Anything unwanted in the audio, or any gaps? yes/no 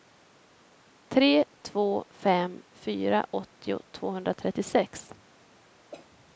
yes